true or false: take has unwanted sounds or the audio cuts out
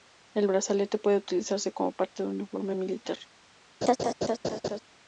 true